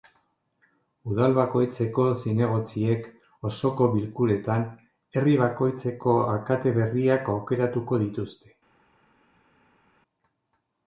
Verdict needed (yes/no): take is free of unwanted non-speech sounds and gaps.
yes